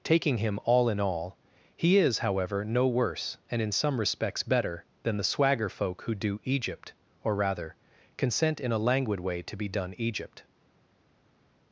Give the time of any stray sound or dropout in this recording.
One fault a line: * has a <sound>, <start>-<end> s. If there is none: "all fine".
all fine